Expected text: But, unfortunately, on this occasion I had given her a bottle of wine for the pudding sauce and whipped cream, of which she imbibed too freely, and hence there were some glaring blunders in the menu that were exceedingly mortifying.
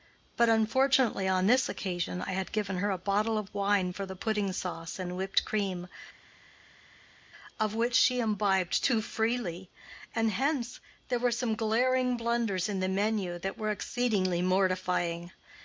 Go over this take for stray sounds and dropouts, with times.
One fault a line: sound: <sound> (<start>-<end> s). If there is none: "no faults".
no faults